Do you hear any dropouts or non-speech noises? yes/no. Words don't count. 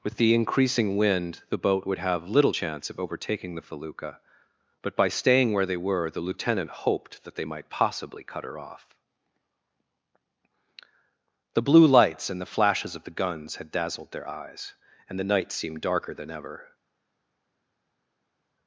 no